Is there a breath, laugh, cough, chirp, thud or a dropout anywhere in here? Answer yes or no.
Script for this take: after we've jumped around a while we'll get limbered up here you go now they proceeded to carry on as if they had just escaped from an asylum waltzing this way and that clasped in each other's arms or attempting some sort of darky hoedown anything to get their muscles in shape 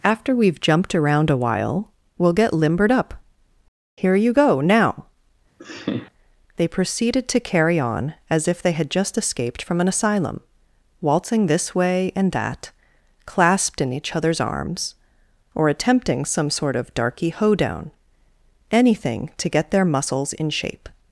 yes